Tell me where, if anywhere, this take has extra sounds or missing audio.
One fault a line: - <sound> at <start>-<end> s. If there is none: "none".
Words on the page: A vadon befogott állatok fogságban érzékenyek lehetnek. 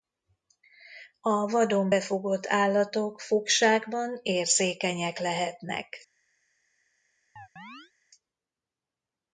- chirp at 7.4-7.9 s